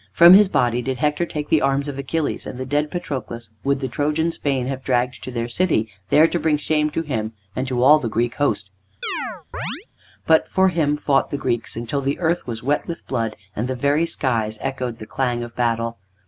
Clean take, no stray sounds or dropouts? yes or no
no